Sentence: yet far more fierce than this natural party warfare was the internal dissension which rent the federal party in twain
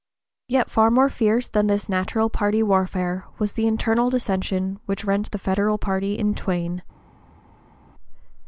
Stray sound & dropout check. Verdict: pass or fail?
pass